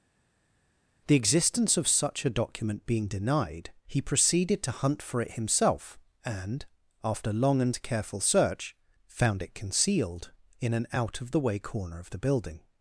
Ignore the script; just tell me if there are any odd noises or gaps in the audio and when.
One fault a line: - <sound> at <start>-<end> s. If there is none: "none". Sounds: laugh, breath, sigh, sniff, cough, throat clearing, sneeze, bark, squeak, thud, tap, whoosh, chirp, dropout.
none